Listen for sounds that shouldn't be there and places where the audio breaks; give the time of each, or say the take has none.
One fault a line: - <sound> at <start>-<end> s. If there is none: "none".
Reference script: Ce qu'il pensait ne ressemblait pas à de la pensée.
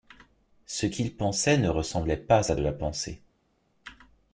none